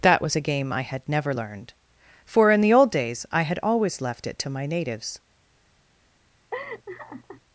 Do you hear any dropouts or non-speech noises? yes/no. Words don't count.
yes